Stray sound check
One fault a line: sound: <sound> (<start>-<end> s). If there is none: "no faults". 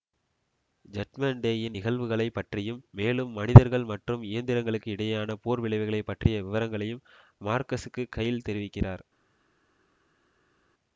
no faults